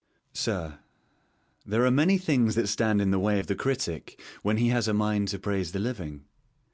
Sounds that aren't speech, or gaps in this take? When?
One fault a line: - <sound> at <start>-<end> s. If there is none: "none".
none